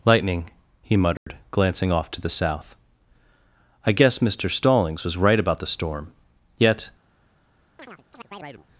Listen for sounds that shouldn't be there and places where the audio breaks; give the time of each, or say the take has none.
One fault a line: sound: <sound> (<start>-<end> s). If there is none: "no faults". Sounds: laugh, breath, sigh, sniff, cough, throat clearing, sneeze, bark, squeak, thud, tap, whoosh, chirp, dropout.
sound: dropout (1.2-1.3 s)
sound: chirp (7.8-8.7 s)